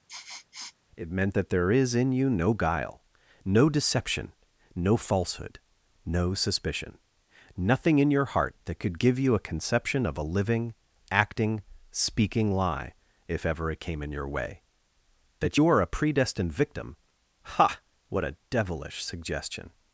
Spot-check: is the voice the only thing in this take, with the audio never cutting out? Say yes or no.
no